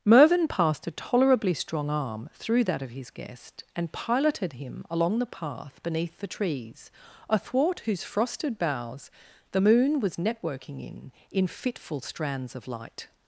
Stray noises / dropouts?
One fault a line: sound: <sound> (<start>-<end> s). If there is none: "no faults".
no faults